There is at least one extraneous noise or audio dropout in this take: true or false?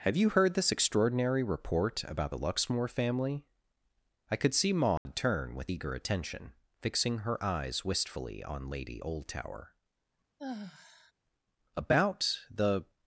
true